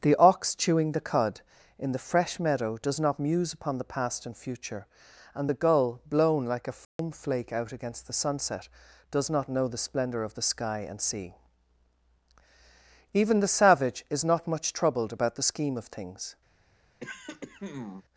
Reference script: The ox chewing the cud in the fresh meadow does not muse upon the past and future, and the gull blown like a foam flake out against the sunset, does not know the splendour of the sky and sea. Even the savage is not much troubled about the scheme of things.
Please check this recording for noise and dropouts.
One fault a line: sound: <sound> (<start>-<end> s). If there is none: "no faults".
sound: dropout (6.8-7.0 s)
sound: throat clearing (17.0-18.0 s)